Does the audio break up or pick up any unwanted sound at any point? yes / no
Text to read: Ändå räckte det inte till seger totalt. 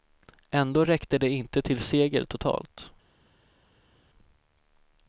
no